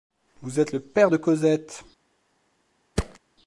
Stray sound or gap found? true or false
true